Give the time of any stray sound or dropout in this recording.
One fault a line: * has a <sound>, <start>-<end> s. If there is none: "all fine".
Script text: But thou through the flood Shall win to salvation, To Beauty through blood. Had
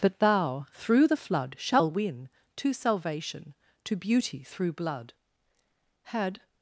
all fine